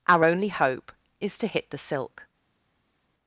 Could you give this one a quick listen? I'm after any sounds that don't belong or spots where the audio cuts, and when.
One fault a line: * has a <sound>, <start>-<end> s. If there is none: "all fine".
all fine